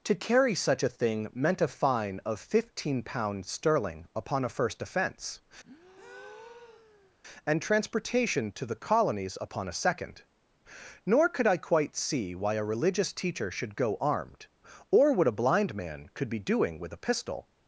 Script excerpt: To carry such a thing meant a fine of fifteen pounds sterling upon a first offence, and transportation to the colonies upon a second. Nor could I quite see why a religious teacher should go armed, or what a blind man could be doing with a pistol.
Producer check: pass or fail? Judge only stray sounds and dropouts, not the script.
fail